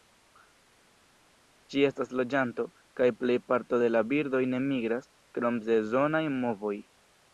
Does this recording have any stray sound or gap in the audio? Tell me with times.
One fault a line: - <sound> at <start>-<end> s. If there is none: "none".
none